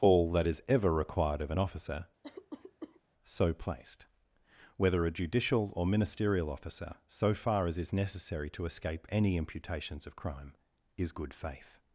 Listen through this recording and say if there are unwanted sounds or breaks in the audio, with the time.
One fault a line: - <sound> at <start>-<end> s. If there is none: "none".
- cough at 2.2-3.0 s